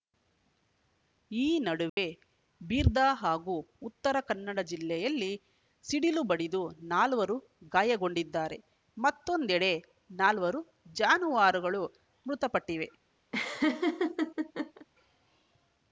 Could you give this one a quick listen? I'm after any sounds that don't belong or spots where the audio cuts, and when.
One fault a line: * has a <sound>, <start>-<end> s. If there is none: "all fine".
* has a dropout, 1.9-2.0 s
* has a laugh, 13.3-14.9 s